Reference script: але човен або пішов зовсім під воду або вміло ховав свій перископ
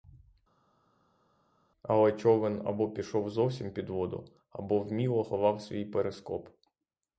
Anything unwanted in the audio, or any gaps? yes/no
no